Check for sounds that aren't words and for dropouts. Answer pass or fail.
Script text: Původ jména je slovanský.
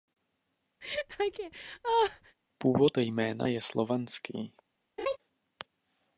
fail